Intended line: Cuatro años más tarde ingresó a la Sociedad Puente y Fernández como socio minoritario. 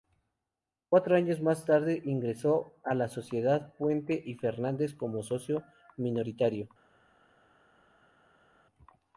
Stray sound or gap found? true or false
false